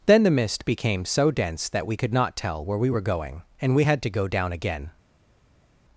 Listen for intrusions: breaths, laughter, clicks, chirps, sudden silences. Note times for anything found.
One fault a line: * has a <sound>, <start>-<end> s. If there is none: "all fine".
all fine